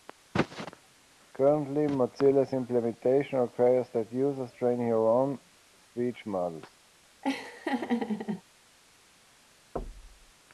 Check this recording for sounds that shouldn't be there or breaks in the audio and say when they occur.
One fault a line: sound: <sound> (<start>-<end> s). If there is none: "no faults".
sound: laugh (7.2-8.4 s)
sound: thud (9.8-10.3 s)